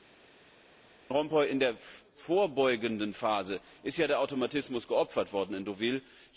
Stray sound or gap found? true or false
false